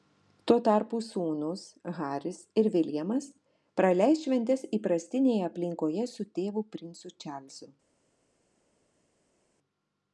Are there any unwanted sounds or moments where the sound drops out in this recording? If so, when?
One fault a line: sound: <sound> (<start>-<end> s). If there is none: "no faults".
no faults